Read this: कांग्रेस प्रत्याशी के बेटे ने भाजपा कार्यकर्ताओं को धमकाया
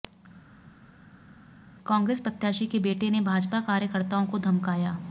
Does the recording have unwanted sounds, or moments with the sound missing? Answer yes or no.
no